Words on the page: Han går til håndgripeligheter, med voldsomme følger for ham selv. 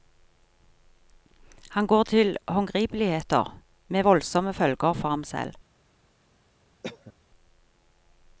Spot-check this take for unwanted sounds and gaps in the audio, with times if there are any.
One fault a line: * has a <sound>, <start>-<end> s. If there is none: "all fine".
* has a cough, 6.8-7.1 s